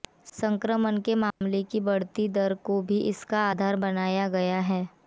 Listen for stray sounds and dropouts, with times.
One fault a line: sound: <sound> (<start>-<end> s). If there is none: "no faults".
sound: dropout (1.3-1.4 s)